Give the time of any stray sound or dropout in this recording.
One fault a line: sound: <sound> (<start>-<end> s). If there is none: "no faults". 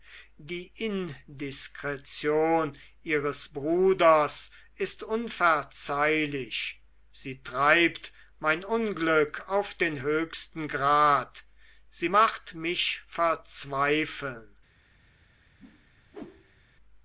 sound: whoosh (15.6-16.7 s)